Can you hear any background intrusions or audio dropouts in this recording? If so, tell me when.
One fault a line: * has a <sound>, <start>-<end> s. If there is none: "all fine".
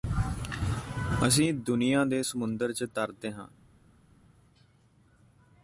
all fine